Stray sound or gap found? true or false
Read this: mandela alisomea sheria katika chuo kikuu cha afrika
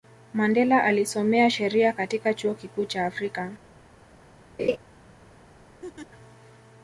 true